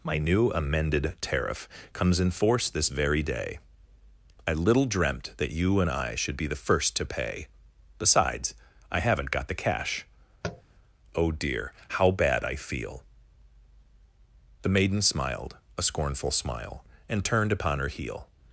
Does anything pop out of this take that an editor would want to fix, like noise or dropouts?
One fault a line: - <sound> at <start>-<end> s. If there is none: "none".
- tap at 10.4-10.6 s